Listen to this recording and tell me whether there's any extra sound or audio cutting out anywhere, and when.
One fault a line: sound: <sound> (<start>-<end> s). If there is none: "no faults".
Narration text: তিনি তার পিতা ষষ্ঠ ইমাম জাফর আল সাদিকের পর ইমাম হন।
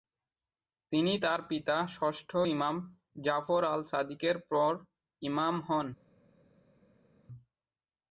no faults